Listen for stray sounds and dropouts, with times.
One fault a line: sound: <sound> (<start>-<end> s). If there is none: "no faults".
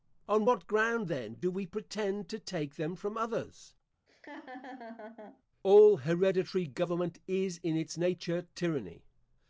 sound: laugh (4.1-5.4 s)